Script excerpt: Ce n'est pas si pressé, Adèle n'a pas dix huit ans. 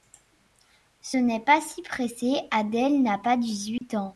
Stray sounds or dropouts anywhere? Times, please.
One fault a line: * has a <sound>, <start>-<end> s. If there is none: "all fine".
* has a dropout, 3.8-3.8 s